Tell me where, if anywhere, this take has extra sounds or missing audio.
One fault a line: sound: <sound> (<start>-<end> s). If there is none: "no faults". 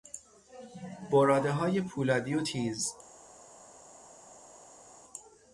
no faults